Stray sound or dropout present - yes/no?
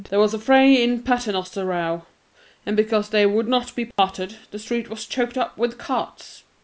yes